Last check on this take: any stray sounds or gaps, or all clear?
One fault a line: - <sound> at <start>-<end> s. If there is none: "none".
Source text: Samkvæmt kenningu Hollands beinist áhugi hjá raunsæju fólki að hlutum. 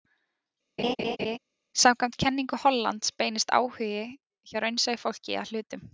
- laugh at 0.8-1.4 s